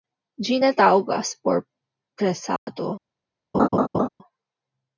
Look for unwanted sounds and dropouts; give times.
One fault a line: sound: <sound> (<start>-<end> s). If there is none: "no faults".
sound: dropout (2.6-2.7 s)
sound: laugh (3.5-4.1 s)